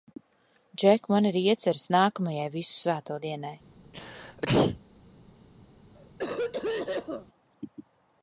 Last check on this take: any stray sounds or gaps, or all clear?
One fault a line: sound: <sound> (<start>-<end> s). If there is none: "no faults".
sound: sneeze (3.9-4.8 s)
sound: cough (5.9-7.3 s)